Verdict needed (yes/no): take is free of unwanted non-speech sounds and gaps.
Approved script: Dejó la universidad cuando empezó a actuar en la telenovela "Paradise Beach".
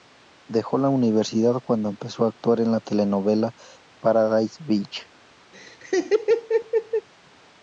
no